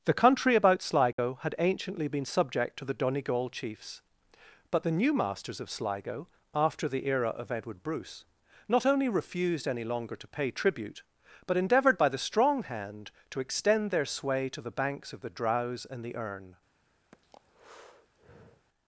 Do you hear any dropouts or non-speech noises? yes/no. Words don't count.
yes